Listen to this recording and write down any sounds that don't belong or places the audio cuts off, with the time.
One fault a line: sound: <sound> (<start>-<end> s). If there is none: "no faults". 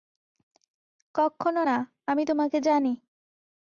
no faults